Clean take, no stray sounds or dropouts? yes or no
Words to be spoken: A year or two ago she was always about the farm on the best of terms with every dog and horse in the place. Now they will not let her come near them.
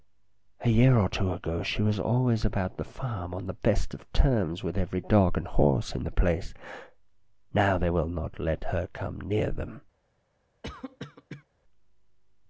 no